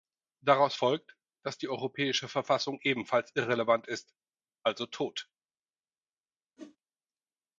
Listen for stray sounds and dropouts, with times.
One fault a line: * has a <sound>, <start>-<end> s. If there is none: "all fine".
* has a whoosh, 6.6-6.8 s